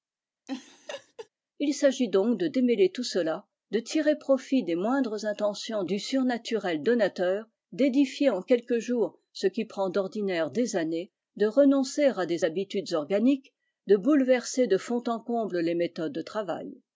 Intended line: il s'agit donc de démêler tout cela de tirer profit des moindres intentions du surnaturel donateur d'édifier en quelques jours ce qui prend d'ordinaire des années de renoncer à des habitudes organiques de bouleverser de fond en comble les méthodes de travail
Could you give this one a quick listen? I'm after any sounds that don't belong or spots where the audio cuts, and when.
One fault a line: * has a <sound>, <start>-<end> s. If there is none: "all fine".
* has a laugh, 0.5-1.3 s